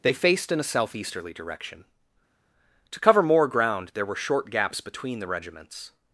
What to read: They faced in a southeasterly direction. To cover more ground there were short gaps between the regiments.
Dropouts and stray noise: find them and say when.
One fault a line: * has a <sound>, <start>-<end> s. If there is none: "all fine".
all fine